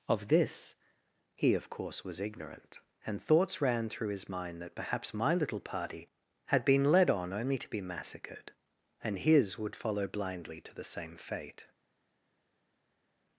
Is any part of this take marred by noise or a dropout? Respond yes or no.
no